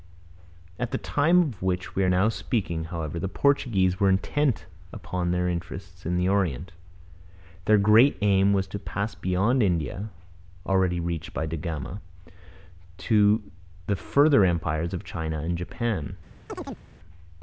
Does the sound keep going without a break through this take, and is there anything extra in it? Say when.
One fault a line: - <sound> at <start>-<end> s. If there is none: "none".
- chirp at 16.5-16.8 s